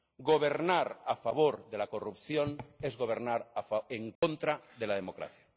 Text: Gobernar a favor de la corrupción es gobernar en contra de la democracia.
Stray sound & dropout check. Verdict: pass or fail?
fail